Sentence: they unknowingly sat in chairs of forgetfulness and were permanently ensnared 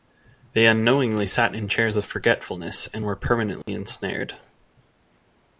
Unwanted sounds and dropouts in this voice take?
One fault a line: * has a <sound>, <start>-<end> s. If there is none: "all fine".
* has a dropout, 3.6-3.7 s